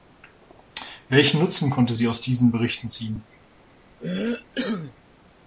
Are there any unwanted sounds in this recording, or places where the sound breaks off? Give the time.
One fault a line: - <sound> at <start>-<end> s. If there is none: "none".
- cough at 4.0-5.0 s